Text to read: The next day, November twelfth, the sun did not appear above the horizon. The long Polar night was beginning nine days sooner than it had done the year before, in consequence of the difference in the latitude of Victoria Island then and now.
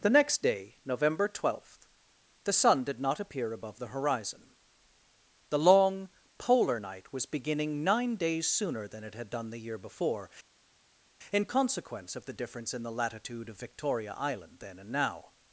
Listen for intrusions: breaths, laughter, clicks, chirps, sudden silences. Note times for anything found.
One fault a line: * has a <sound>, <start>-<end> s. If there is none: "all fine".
all fine